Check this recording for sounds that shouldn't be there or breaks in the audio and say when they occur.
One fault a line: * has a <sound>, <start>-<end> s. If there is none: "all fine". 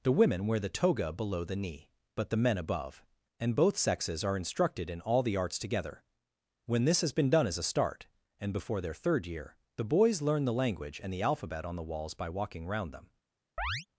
* has a chirp, 13.6-13.9 s